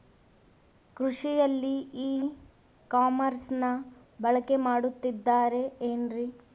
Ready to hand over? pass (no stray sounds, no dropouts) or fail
pass